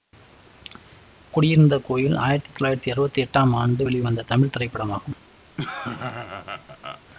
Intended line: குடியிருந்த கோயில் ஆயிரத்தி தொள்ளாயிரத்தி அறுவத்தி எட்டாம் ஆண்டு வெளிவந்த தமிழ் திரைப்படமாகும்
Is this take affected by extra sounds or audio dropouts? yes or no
yes